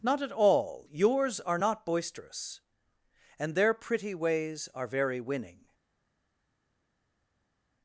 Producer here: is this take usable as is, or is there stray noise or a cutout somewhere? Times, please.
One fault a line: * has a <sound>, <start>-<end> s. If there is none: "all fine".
all fine